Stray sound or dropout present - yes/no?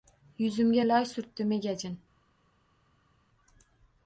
no